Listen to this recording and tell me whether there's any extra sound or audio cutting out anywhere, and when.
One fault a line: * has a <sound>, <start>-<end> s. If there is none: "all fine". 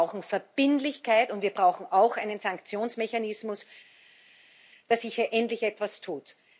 all fine